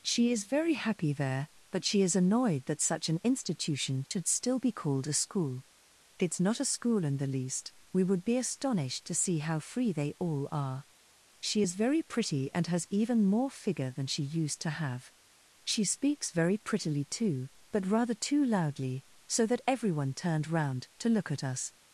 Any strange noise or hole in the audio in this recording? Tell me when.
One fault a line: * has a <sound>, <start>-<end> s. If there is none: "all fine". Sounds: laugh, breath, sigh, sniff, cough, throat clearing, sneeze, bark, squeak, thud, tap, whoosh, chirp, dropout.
* has a dropout, 4.1-4.1 s